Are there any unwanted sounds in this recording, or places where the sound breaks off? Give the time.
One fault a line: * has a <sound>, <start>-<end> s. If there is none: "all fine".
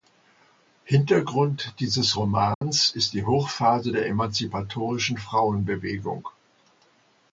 * has a dropout, 2.5-2.6 s